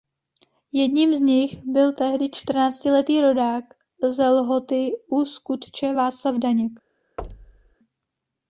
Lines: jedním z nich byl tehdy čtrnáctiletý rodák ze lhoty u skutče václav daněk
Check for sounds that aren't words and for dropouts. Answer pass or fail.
fail